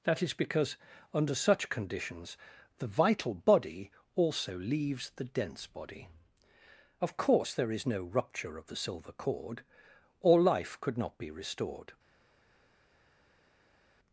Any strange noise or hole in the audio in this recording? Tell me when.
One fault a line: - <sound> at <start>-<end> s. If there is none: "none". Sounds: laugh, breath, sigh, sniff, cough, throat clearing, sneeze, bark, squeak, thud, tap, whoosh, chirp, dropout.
none